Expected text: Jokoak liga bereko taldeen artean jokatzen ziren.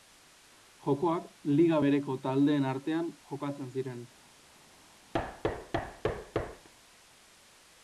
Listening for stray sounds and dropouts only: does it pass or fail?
fail